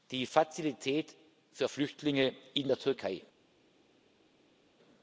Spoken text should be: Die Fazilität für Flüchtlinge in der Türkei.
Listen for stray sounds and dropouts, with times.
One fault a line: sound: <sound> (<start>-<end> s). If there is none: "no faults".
no faults